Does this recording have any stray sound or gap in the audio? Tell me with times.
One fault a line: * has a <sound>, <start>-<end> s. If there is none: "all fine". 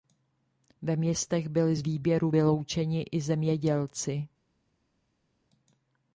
all fine